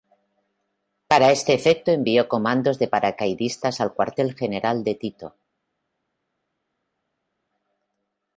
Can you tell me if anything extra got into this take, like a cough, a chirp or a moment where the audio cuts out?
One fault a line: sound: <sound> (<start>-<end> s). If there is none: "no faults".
no faults